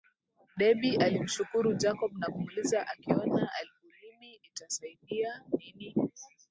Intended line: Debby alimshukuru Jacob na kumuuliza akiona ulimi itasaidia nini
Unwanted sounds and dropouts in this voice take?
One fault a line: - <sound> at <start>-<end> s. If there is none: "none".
none